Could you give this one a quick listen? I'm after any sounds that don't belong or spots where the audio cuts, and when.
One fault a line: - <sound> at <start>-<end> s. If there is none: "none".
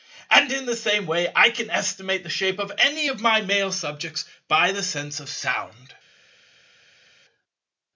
none